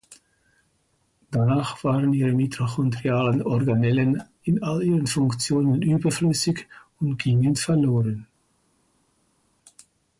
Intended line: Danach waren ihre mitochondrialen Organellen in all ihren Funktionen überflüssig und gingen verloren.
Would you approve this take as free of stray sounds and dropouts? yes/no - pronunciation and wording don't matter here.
yes